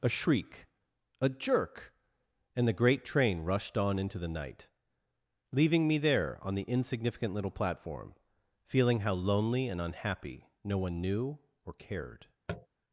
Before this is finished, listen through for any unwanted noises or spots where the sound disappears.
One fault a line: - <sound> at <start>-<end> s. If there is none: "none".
- tap at 12.5-12.7 s